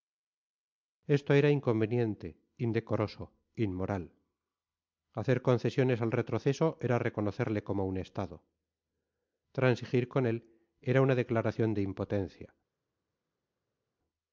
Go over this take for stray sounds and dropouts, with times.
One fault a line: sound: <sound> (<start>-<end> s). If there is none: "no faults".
no faults